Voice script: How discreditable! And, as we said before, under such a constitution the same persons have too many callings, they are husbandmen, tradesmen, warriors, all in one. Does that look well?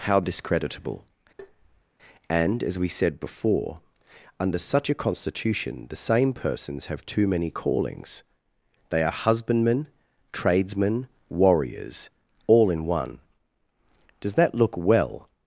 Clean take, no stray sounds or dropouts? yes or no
no